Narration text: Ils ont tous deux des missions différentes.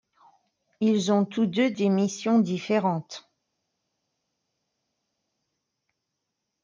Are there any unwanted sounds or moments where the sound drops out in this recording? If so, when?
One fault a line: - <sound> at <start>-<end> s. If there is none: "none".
none